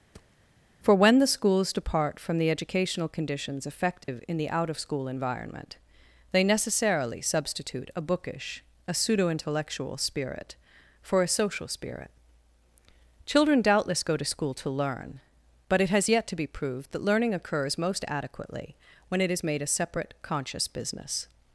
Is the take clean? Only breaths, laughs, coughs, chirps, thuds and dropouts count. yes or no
no